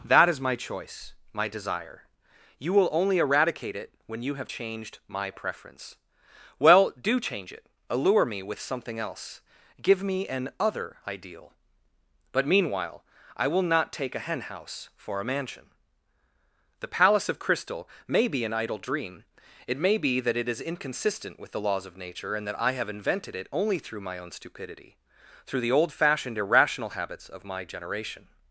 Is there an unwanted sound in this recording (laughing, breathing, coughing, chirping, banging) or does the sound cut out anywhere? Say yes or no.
no